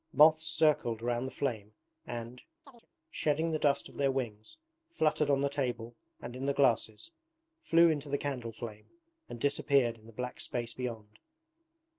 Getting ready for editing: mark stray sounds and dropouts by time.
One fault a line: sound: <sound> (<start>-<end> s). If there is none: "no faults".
sound: chirp (2.6-2.9 s)